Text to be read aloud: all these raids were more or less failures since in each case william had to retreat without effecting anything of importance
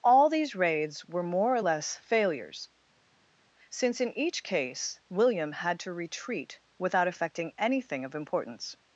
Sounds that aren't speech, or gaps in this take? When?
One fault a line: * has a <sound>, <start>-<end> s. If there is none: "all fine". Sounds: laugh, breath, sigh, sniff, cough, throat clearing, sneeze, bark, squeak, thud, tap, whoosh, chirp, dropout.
all fine